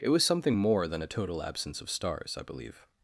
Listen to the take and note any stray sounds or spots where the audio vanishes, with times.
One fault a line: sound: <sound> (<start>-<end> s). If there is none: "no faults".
no faults